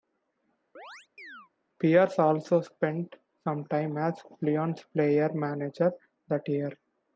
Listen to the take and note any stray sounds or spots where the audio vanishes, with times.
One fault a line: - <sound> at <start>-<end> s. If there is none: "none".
- chirp at 0.8-1.5 s